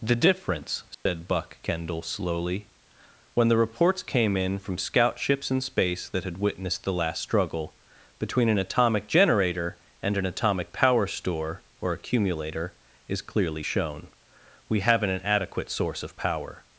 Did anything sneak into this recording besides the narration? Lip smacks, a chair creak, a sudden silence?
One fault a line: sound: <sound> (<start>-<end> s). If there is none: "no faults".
sound: dropout (0.9-1.1 s)